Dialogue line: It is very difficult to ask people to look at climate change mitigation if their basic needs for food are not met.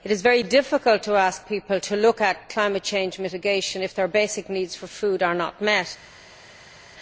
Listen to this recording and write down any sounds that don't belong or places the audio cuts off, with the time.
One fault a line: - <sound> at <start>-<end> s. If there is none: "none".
none